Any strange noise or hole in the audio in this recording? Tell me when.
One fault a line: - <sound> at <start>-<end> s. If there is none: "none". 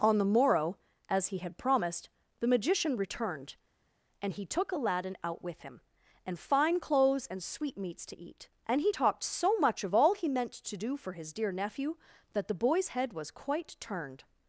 none